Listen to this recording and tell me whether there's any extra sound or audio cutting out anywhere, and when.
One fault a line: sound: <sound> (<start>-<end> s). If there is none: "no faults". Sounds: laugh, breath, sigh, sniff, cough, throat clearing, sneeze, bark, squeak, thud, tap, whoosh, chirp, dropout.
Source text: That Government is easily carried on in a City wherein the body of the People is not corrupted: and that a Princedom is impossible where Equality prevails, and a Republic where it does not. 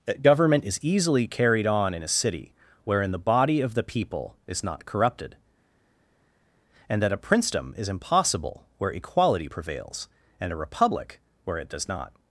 no faults